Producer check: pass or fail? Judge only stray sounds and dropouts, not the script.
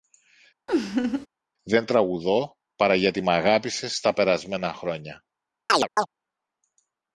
fail